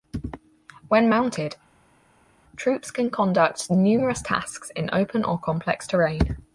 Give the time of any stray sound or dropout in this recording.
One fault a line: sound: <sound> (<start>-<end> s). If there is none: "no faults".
no faults